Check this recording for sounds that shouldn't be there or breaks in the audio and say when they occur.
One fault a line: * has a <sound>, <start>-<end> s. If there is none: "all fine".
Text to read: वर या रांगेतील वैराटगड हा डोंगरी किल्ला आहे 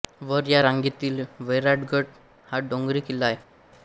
all fine